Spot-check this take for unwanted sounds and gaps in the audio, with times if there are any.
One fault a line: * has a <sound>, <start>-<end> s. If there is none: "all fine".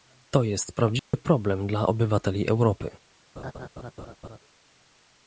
* has a dropout, 1.0-1.1 s
* has a laugh, 3.4-4.4 s